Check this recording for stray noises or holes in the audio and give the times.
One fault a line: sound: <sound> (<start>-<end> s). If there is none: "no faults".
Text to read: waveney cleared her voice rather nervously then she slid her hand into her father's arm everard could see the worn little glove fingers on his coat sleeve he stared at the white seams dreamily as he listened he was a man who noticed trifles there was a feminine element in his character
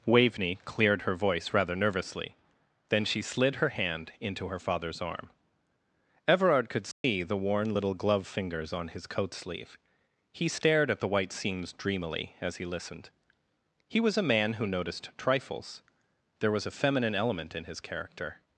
sound: dropout (6.9-7.0 s)